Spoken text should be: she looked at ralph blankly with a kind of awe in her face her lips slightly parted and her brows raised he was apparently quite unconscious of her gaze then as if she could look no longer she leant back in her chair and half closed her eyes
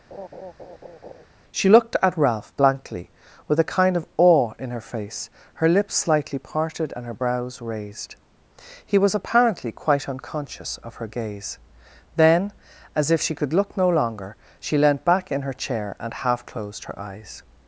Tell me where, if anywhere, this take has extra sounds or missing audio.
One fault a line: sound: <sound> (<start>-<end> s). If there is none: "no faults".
sound: laugh (0.1-1.3 s)